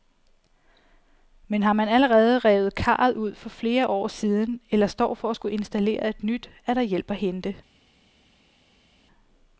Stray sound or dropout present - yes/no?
no